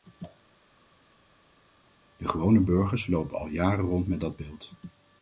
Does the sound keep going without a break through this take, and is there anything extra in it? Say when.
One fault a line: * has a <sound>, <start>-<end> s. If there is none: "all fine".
all fine